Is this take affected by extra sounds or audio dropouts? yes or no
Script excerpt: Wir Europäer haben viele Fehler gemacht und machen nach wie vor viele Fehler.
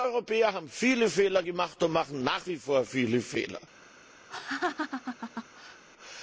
yes